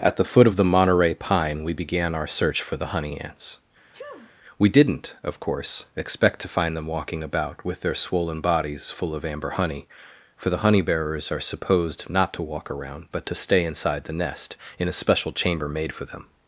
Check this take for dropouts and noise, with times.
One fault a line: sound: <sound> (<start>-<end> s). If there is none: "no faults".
sound: sneeze (3.9-4.4 s)